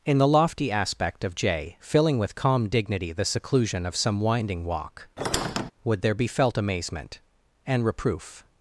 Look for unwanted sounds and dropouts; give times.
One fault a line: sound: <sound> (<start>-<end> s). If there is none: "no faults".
sound: squeak (5.2-5.7 s)